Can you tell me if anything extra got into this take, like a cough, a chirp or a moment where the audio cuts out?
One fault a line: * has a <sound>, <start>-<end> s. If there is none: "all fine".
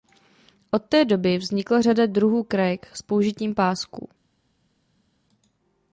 all fine